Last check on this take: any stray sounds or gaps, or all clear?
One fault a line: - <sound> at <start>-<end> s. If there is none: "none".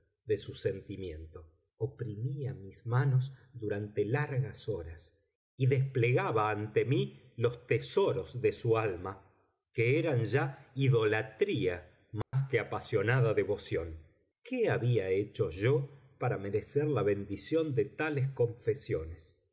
- dropout at 12.2-12.3 s